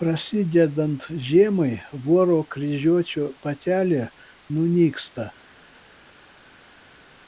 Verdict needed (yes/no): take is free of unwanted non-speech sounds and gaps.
yes